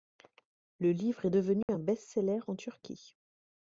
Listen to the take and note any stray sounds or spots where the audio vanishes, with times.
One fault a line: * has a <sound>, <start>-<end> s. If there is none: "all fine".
* has a dropout, 1.6-1.7 s